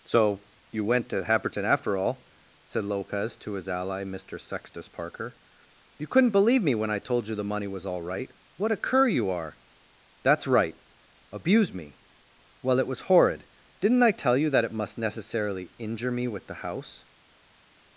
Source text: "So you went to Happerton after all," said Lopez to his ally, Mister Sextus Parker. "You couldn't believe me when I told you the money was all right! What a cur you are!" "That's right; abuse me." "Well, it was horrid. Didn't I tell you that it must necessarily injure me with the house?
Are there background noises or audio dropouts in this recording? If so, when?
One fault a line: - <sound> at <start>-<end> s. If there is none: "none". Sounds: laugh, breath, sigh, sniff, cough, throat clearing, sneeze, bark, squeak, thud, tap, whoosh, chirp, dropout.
none